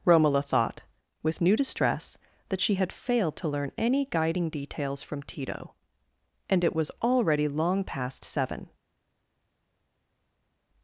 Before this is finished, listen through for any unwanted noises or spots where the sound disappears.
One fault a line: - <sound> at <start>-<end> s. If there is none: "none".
none